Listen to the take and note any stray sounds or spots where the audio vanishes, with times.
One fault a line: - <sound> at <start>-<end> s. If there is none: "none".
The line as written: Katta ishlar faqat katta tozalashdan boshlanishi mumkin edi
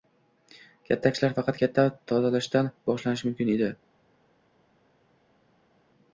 none